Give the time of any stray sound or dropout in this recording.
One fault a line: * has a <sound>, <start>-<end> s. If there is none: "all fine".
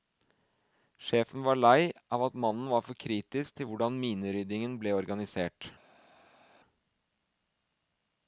all fine